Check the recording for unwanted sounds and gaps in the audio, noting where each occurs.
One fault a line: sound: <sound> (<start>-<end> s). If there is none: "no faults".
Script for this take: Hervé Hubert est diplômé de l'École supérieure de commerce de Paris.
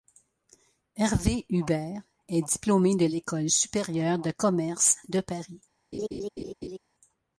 sound: laugh (5.9-6.8 s)